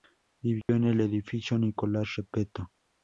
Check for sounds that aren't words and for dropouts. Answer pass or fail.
fail